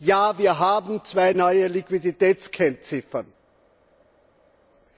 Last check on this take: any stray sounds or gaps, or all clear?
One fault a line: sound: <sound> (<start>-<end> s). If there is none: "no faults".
no faults